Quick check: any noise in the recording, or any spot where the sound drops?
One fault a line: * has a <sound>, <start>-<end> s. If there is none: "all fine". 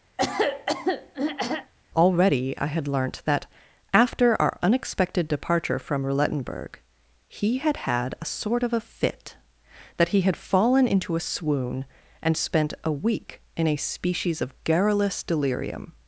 * has a throat clearing, 0.2-1.7 s